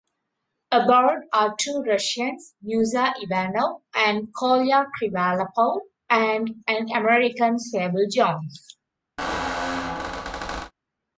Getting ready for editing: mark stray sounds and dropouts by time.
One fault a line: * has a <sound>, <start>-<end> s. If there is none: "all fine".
* has a squeak, 9.2-10.7 s